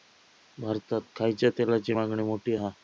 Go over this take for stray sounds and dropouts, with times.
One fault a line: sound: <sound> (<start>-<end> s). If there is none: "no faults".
no faults